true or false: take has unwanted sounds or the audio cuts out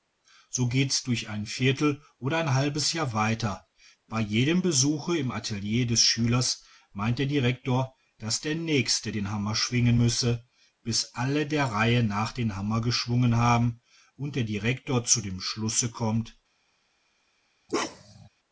true